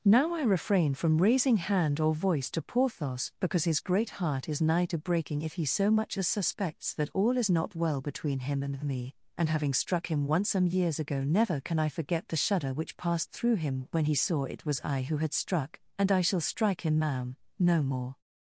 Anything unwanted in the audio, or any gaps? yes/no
no